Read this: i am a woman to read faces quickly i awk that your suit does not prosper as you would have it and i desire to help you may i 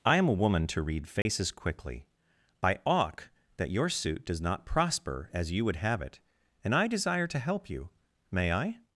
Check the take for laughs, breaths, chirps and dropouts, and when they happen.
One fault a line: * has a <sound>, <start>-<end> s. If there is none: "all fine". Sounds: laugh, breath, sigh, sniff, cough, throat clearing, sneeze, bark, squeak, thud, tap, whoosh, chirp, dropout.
* has a dropout, 1.2-1.3 s